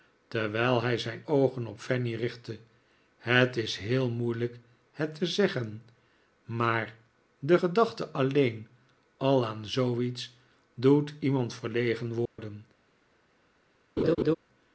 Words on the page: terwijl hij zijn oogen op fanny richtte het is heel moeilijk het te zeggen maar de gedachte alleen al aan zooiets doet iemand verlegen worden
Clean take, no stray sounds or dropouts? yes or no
no